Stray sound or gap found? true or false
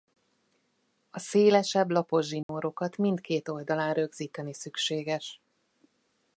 true